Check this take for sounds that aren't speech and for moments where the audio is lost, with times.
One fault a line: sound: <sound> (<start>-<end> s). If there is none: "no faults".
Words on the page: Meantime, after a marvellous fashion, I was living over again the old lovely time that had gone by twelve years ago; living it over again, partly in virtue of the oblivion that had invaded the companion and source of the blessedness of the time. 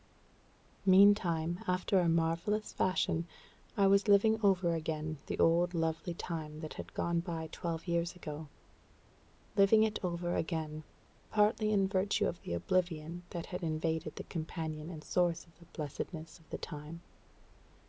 no faults